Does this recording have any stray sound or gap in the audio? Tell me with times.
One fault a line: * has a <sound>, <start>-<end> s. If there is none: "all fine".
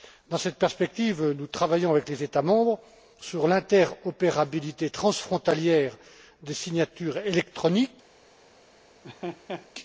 * has a laugh, 9.0-9.7 s